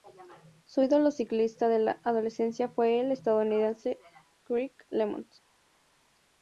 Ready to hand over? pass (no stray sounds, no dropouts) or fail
pass